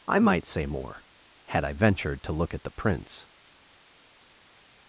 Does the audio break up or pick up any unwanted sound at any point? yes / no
no